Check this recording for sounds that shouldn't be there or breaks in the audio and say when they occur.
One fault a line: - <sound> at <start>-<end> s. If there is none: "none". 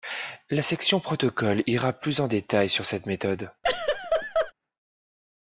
- laugh at 3.6-4.5 s